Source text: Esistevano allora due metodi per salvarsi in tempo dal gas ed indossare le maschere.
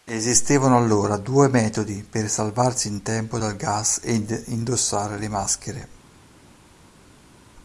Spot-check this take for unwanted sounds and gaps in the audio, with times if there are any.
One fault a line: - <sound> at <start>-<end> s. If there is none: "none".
none